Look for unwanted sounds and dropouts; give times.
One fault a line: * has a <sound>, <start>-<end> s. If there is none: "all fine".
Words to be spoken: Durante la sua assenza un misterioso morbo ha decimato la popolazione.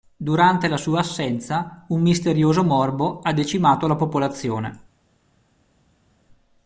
all fine